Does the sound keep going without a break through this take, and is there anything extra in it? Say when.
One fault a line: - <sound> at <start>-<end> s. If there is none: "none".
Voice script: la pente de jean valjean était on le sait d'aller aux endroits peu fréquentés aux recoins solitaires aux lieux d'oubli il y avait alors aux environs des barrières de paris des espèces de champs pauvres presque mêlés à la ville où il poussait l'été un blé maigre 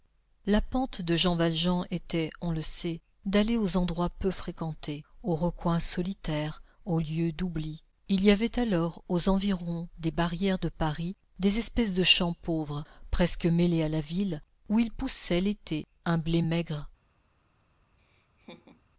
- laugh at 18.0-18.8 s